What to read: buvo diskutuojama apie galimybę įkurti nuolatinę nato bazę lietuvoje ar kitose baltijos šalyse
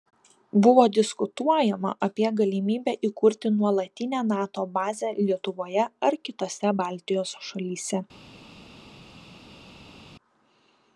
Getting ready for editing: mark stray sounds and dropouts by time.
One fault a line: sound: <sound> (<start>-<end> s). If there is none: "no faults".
no faults